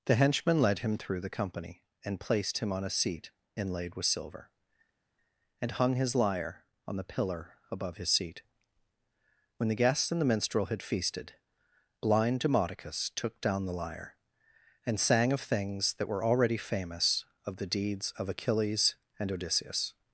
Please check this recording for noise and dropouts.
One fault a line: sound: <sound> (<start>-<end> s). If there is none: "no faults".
no faults